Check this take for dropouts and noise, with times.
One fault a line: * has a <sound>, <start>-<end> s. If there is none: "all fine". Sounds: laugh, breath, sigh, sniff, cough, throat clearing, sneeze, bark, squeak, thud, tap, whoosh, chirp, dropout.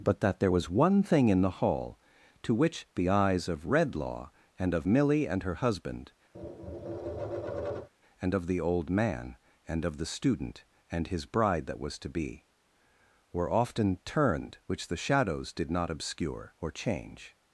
* has a tap, 6.3-7.9 s